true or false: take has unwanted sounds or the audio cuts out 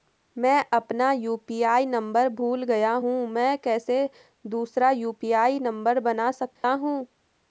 true